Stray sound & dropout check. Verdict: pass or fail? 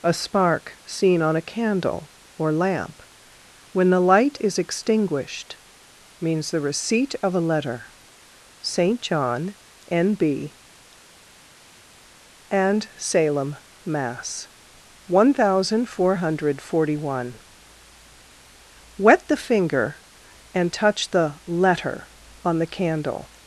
pass